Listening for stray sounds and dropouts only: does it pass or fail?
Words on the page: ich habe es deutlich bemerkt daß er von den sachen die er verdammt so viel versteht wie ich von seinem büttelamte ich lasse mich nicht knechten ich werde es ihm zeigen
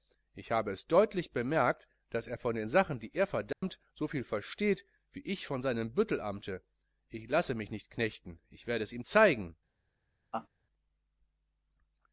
fail